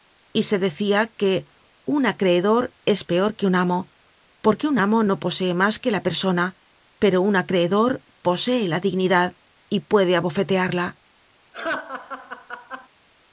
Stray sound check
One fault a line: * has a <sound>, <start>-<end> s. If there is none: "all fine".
* has a laugh, 11.5-12.9 s